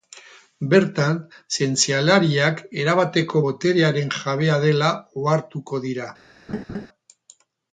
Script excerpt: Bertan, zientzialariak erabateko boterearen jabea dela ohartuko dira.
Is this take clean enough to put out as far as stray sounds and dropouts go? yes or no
no